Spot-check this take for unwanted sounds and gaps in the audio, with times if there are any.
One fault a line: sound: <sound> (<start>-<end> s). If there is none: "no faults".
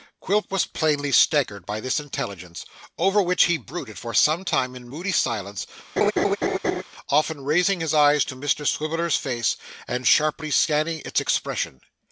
sound: laugh (6.0-6.8 s)